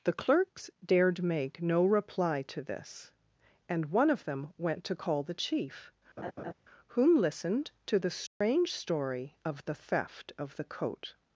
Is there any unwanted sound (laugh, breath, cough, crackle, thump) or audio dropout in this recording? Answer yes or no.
yes